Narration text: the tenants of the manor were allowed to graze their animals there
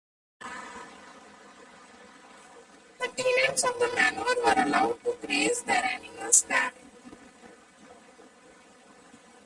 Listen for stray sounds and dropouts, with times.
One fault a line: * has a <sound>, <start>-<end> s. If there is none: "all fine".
all fine